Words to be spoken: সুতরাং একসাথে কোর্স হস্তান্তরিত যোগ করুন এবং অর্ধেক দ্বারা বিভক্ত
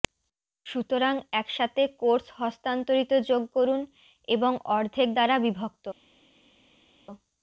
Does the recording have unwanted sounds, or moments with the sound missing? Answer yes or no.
no